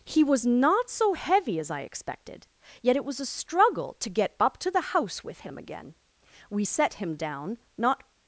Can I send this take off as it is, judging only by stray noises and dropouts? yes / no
yes